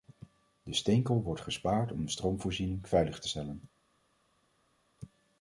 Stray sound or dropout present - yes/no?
no